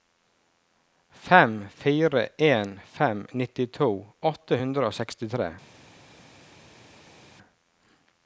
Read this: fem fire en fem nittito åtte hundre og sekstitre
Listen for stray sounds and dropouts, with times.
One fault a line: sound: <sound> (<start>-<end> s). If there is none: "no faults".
no faults